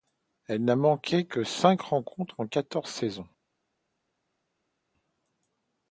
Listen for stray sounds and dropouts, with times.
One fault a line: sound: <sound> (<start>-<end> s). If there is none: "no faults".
no faults